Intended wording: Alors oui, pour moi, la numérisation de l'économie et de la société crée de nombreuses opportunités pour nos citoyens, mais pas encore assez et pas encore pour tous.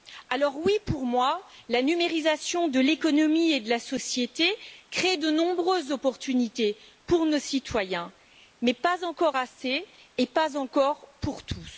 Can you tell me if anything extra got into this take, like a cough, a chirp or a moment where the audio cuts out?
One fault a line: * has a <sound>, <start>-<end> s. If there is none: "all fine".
all fine